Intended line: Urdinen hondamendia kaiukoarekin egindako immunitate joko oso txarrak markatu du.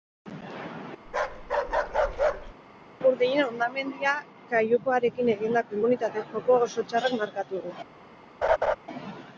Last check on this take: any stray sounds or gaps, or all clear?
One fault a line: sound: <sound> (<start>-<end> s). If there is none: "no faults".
sound: bark (1.1-2.5 s)
sound: laugh (8.4-8.8 s)